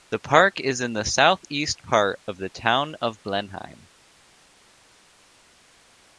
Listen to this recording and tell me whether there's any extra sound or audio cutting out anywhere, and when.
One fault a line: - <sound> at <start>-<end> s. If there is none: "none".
none